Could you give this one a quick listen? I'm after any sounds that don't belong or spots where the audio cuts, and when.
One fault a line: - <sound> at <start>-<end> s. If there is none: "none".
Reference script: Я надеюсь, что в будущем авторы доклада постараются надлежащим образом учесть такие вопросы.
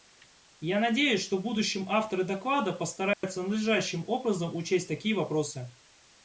- dropout at 3.1-3.2 s